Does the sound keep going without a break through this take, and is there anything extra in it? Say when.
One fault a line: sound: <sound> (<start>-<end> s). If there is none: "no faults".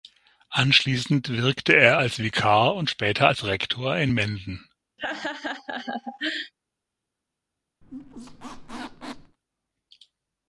sound: laugh (5.0-6.5 s)
sound: squeak (7.8-9.4 s)